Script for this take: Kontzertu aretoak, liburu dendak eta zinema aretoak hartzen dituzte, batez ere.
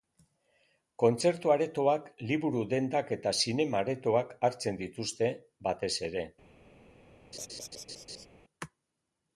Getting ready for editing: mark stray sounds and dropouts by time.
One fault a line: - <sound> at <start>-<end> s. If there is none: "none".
- laugh at 7.3-8.3 s